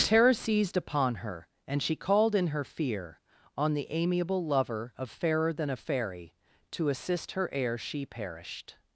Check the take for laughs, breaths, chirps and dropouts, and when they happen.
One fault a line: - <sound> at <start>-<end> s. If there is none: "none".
none